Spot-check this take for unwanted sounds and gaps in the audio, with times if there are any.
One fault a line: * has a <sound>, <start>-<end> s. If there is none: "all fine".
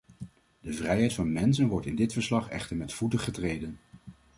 all fine